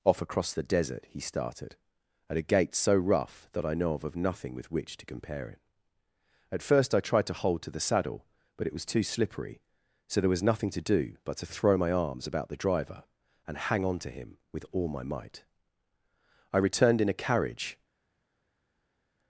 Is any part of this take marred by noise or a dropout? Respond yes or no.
no